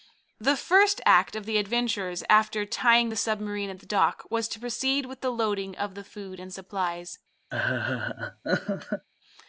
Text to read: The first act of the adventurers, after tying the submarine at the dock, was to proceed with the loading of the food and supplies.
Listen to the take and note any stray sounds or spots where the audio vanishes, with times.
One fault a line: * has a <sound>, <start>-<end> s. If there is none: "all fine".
* has a laugh, 7.5-9.1 s